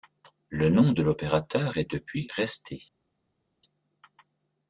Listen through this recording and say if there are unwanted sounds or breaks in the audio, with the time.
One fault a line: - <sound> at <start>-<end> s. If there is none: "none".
none